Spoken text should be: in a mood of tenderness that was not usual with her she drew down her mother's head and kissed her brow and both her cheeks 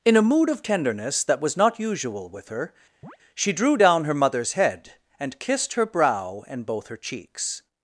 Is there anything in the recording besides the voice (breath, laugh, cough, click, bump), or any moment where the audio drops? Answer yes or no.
yes